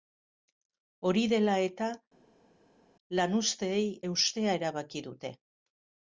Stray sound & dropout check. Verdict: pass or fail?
pass